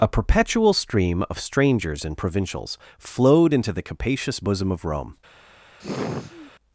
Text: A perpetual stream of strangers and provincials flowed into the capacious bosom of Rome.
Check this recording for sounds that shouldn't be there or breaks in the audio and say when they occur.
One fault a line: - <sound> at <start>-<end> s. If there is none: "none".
- sigh at 5.8-6.5 s